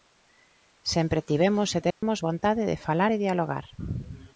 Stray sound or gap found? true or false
true